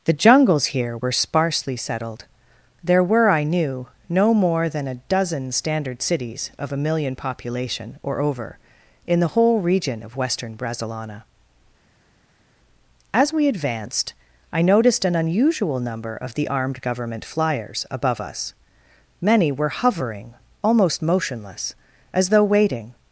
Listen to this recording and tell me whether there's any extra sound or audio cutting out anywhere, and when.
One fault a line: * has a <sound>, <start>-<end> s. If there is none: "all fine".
all fine